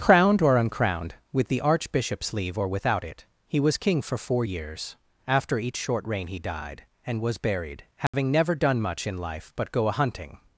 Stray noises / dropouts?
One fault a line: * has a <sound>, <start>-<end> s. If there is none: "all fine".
* has a dropout, 8.1-8.1 s